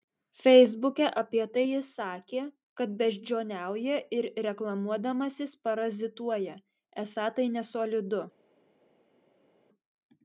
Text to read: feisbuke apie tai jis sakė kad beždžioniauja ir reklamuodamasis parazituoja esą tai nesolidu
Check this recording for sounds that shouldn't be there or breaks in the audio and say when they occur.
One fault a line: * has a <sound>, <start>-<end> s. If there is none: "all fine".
all fine